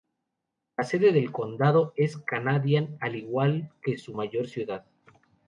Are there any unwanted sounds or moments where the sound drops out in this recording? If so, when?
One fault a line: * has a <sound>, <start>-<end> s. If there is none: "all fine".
all fine